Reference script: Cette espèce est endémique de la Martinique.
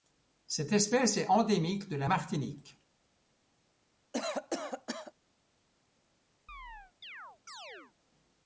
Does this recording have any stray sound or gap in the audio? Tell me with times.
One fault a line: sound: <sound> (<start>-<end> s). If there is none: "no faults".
sound: cough (4.1-5.1 s)
sound: chirp (6.5-7.9 s)